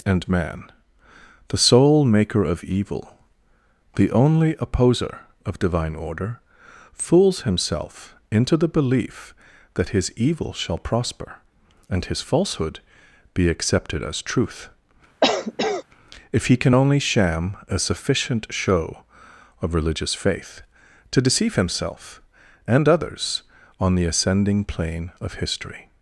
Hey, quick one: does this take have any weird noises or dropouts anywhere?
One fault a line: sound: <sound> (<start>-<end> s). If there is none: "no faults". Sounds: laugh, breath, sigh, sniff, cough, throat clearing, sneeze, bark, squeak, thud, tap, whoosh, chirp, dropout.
sound: cough (15.2-15.8 s)